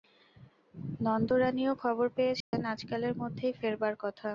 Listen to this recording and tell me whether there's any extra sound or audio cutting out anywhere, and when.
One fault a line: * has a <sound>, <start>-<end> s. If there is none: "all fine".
* has a dropout, 2.4-2.5 s